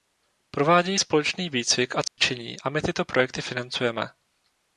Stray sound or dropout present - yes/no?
yes